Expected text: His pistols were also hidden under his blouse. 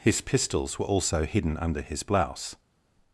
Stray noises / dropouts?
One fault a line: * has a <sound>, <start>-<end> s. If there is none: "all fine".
all fine